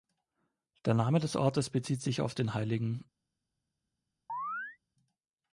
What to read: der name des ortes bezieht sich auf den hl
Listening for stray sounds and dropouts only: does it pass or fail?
fail